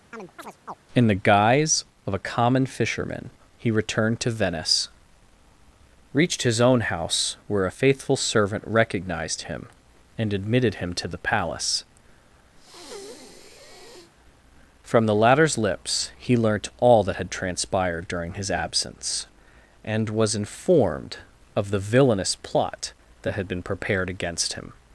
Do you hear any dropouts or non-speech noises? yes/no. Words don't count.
yes